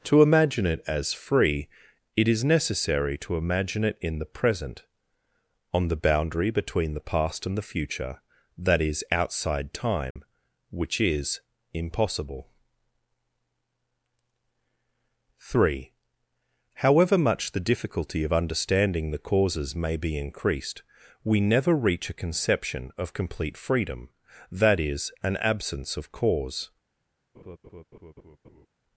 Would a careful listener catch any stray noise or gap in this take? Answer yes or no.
yes